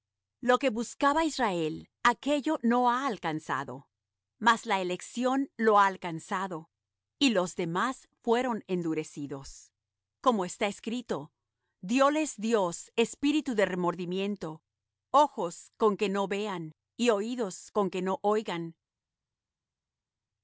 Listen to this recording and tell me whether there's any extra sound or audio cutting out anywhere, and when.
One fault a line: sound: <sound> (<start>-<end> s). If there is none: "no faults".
no faults